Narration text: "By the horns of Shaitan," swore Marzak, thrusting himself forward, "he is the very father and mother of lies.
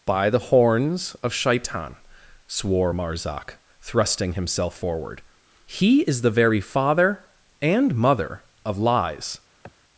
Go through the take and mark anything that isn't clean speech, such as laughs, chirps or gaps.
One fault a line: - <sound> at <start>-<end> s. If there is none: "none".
- sniff at 9.6-9.7 s